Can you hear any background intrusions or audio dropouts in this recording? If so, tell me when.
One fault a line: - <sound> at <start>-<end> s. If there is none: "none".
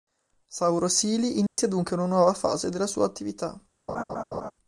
- dropout at 1.5-1.6 s
- laugh at 3.9-4.5 s